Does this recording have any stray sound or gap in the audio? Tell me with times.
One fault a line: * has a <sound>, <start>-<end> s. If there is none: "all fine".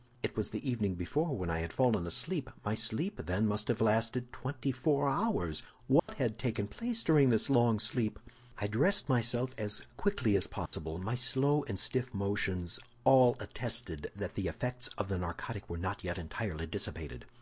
* has a dropout, 6.0-6.1 s
* has a dropout, 10.7-10.7 s